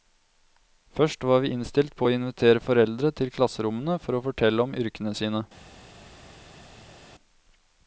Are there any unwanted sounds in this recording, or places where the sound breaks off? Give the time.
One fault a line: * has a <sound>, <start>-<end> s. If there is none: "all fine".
all fine